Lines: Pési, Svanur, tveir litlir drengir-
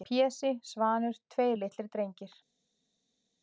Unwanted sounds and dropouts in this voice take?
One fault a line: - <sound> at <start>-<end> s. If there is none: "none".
none